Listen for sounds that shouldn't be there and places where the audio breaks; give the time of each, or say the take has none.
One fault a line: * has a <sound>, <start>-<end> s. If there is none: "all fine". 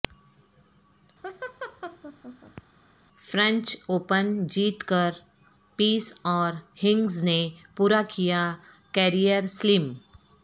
* has a laugh, 1.2-2.6 s